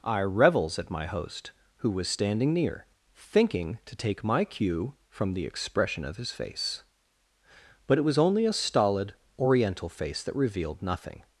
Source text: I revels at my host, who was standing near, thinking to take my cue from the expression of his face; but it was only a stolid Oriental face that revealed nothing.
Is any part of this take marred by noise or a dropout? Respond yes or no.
no